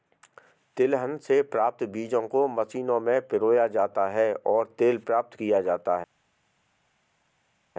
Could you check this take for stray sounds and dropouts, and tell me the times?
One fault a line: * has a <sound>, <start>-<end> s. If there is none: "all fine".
all fine